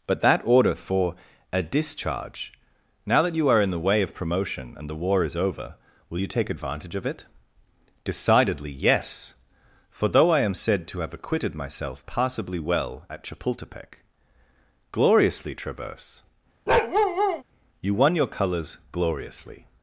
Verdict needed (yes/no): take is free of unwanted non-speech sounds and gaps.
no